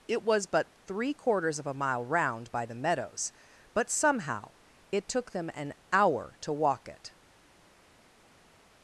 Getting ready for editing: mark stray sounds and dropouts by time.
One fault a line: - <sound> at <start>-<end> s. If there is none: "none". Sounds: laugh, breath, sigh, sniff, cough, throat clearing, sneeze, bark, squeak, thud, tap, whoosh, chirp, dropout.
none